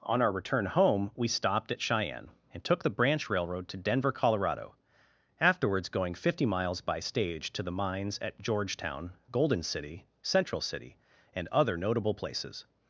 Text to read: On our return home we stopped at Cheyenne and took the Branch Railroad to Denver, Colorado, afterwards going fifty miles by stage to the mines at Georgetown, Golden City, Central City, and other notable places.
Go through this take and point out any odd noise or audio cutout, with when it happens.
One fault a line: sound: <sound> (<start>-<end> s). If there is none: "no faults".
no faults